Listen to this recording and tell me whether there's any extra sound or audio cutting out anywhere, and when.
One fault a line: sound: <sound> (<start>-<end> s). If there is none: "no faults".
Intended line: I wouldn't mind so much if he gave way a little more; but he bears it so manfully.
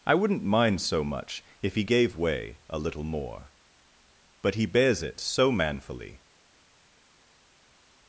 no faults